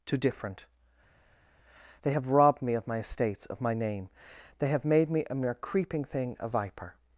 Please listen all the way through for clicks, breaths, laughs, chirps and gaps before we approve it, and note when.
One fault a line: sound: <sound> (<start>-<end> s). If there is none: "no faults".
no faults